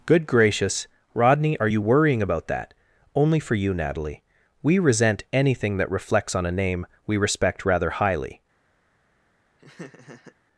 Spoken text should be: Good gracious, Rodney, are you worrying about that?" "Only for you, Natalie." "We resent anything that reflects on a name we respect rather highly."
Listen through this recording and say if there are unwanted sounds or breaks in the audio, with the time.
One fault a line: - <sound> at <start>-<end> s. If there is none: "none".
- laugh at 9.6-10.4 s